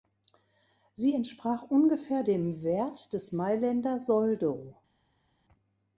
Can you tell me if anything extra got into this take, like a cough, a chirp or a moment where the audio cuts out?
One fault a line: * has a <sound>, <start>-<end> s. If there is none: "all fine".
all fine